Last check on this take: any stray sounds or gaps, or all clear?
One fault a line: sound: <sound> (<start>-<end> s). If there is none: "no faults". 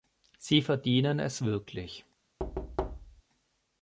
sound: thud (2.4-3.2 s)